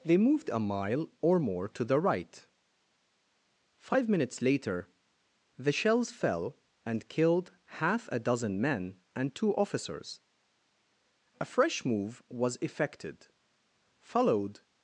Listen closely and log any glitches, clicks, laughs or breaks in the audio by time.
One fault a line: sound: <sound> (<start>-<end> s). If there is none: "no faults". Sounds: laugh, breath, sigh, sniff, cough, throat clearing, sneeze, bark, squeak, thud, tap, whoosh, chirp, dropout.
no faults